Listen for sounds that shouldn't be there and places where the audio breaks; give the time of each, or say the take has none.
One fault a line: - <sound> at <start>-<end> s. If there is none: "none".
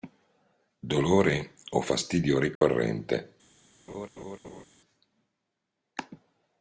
- dropout at 2.6-2.6 s
- laugh at 3.9-4.6 s